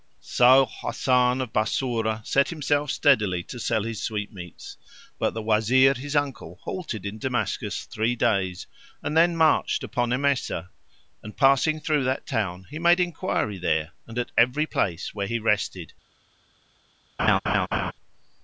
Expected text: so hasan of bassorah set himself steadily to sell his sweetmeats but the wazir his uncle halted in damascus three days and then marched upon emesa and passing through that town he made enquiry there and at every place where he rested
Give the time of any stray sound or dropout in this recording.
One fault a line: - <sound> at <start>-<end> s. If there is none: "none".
- laugh at 17.2-17.9 s